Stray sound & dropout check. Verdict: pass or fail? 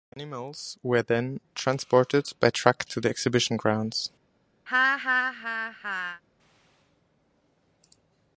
fail